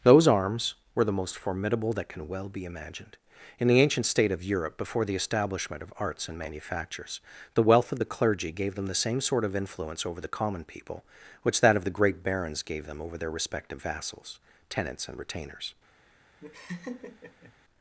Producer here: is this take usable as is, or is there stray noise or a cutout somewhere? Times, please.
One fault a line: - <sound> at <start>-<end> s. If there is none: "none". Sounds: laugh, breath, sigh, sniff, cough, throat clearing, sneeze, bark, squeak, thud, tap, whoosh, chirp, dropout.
- laugh at 16.4-17.5 s